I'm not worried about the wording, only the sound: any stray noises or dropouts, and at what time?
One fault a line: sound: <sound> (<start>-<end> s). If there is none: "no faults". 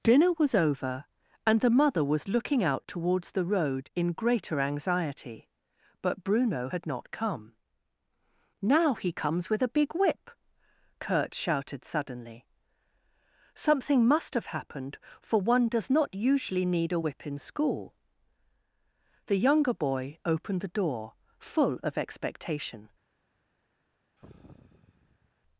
sound: sigh (24.2-25.3 s)